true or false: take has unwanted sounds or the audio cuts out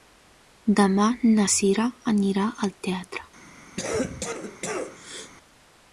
true